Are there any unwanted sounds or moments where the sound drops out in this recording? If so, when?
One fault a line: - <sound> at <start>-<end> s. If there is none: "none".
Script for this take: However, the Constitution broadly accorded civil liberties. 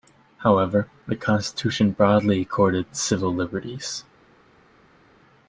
none